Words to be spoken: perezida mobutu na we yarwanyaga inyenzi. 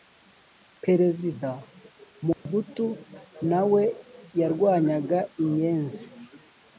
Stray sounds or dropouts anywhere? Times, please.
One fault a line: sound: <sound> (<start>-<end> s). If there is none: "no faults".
sound: dropout (2.3-2.5 s)